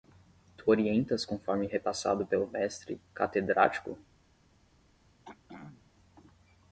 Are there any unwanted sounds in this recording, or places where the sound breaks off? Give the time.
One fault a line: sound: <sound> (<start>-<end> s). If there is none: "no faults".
sound: throat clearing (5.2-5.9 s)